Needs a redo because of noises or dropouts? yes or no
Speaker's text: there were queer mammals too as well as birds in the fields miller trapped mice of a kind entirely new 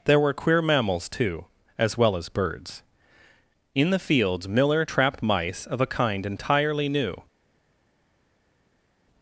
no